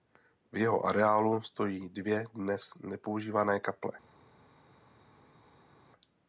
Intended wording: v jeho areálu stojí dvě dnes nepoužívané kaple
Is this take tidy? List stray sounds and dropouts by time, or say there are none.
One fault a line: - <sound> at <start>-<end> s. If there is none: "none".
none